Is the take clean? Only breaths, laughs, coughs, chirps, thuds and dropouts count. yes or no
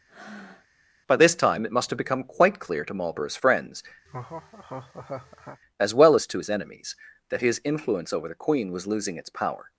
no